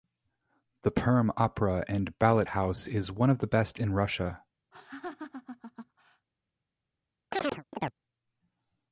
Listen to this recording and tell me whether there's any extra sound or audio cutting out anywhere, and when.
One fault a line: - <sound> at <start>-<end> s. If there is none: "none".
- laugh at 4.7-6.3 s
- chirp at 7.3-7.9 s